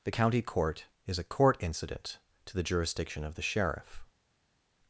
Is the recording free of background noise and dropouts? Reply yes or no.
yes